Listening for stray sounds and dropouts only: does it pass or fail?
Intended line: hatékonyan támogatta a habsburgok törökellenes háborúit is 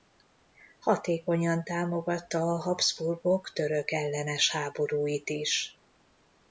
pass